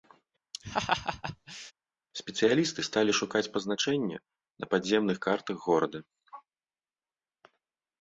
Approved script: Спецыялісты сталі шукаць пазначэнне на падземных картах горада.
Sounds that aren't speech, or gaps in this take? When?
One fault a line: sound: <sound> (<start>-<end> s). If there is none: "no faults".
sound: laugh (0.5-1.7 s)